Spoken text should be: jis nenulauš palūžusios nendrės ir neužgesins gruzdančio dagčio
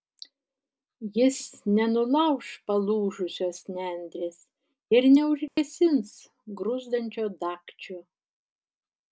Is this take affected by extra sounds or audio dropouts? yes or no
yes